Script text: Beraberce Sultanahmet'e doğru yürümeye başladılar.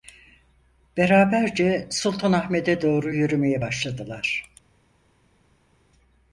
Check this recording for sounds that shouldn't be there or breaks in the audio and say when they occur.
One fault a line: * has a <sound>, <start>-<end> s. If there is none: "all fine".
all fine